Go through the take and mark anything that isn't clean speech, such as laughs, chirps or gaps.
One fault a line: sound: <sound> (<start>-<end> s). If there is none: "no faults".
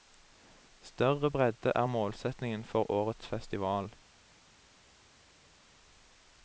no faults